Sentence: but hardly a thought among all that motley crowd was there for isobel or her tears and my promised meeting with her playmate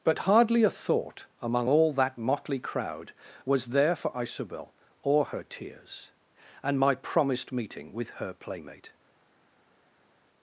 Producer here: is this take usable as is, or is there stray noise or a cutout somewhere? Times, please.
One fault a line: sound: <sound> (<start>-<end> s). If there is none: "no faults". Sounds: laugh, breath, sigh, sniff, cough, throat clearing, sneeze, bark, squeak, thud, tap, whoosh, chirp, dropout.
no faults